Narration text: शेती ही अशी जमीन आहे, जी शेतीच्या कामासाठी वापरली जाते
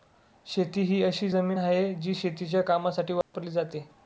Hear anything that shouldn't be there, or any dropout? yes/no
yes